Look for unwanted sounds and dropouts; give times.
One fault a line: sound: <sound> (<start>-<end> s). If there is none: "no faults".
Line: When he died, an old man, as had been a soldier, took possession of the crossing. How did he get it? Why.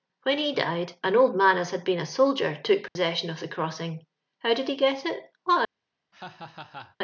sound: dropout (2.9-3.0 s)
sound: laugh (6.1-7.0 s)